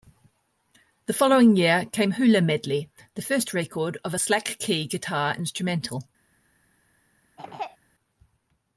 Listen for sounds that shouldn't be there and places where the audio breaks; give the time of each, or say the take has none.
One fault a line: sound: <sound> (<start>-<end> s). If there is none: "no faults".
sound: throat clearing (7.4-7.8 s)